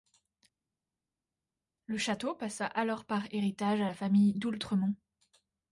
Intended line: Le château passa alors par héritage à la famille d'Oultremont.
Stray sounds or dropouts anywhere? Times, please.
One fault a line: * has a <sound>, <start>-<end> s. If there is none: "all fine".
all fine